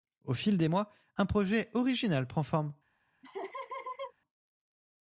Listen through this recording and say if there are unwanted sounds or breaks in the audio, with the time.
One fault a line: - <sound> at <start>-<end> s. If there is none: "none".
- laugh at 3.2-4.1 s